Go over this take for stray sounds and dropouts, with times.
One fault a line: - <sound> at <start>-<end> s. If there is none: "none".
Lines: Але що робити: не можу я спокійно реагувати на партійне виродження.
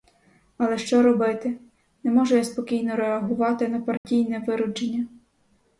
- dropout at 4.0-4.0 s